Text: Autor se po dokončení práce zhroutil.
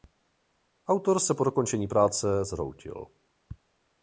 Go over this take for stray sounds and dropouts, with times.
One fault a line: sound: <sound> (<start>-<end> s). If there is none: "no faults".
no faults